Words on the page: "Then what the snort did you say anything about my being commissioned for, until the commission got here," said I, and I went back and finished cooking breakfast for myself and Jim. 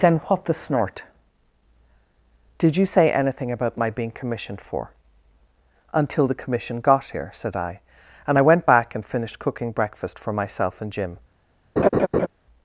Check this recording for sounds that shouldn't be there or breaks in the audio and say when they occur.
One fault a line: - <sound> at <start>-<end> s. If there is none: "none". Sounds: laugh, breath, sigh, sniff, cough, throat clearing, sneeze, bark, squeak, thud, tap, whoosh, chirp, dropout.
- laugh at 11.8-12.3 s